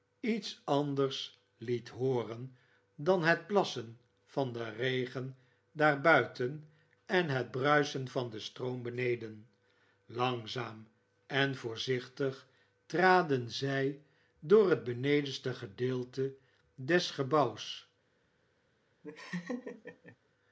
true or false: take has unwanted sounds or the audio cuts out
true